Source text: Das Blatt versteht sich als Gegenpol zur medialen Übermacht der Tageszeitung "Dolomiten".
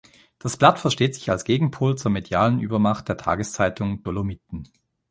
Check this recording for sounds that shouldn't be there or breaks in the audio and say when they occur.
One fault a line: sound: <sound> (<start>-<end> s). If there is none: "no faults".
no faults